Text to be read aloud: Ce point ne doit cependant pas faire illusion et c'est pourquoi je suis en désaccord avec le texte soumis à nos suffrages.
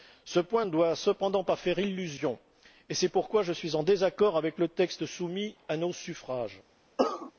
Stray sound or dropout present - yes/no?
yes